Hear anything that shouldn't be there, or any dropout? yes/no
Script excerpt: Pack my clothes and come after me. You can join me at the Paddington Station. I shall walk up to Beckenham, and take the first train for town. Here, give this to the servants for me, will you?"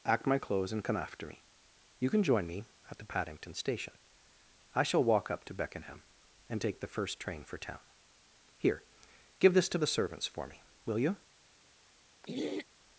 yes